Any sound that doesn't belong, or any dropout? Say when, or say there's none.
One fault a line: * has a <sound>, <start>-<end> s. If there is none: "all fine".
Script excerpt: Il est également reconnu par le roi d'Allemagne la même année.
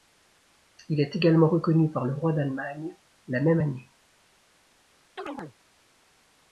* has a chirp, 5.2-5.5 s